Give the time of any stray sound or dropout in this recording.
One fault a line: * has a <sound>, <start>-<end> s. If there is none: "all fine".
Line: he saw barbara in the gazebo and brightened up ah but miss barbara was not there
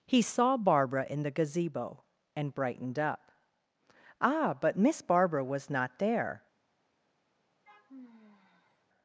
* has a sigh, 7.6-8.9 s